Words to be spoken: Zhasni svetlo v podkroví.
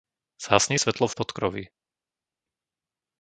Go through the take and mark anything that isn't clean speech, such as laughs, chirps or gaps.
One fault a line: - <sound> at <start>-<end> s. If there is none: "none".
none